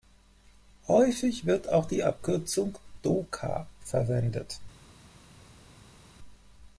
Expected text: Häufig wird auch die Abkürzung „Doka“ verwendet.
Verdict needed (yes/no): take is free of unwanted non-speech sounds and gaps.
yes